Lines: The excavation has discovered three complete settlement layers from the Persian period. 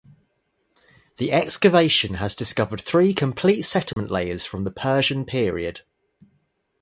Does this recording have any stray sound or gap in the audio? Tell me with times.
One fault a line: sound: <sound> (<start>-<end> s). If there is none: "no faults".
sound: dropout (3.9-4.0 s)